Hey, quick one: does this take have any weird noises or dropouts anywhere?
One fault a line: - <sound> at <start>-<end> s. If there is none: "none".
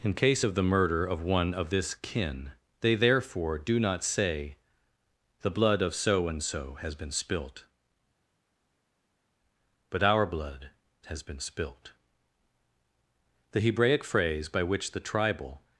none